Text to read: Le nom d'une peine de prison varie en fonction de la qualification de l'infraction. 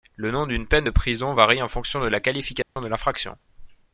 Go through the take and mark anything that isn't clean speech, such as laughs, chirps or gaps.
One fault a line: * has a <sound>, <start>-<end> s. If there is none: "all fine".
* has a dropout, 2.6-2.8 s